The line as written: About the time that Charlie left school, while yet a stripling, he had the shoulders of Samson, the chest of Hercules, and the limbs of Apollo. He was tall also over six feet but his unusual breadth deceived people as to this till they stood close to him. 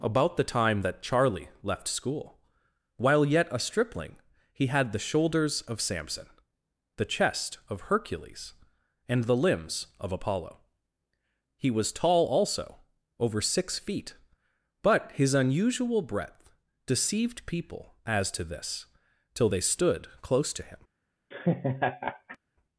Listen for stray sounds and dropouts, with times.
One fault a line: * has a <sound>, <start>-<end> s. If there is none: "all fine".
* has a laugh, 21.3-22.4 s